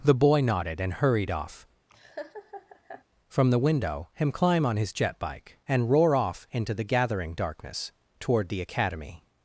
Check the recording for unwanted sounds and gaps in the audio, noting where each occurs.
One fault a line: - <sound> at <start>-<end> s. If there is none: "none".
- laugh at 1.9-3.0 s